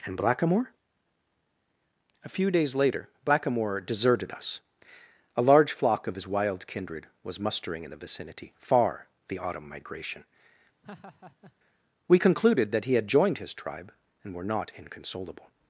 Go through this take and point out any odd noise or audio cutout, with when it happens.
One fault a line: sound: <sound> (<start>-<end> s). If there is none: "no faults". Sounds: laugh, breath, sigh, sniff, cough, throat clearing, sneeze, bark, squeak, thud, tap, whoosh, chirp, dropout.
sound: laugh (10.8-11.5 s)